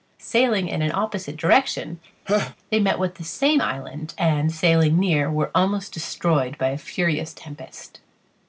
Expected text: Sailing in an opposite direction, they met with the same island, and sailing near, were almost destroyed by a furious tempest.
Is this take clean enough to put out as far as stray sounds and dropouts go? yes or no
no